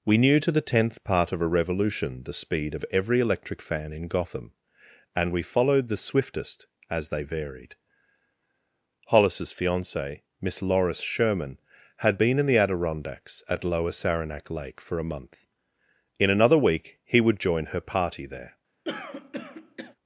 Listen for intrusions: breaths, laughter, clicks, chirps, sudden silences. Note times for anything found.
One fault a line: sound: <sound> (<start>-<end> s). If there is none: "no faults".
sound: throat clearing (18.9-20.0 s)